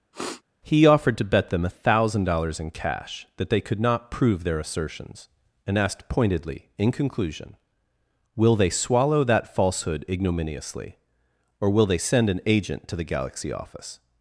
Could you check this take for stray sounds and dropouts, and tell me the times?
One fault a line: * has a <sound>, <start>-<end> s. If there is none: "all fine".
* has a sniff, 0.1-0.4 s